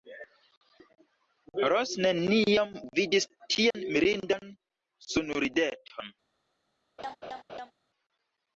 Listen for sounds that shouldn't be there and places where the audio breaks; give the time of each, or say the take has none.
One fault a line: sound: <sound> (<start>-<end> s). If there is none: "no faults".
sound: dropout (3.7-3.7 s)
sound: laugh (7.0-7.7 s)